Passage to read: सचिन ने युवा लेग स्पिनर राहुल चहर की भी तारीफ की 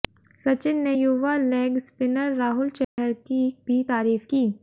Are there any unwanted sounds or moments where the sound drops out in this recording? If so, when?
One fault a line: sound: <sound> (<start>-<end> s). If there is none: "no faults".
sound: dropout (2.8-3.0 s)